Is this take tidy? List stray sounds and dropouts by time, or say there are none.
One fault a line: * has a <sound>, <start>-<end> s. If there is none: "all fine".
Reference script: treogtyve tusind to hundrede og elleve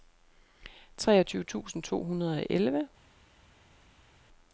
all fine